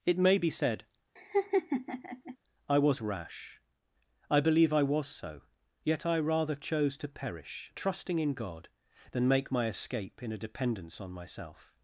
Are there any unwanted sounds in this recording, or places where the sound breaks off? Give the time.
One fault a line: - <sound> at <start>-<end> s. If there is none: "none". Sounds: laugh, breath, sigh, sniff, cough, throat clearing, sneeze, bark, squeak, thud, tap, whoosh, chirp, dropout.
- laugh at 1.2-2.4 s